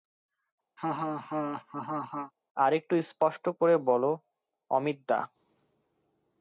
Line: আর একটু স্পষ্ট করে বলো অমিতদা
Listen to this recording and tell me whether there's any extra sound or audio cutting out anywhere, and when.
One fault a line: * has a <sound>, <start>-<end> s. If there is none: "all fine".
* has a laugh, 0.8-2.3 s